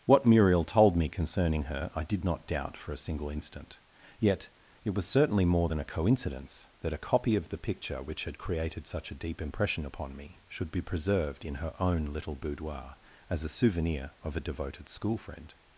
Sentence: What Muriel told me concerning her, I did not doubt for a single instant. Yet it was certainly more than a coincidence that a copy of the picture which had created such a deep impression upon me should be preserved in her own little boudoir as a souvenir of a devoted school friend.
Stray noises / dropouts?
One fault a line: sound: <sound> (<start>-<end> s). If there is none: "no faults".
no faults